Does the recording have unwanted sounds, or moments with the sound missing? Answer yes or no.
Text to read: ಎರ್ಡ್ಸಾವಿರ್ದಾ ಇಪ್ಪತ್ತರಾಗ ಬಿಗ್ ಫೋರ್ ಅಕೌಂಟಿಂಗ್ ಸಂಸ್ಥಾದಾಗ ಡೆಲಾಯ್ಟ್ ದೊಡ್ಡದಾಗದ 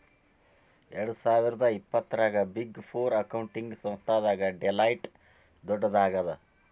no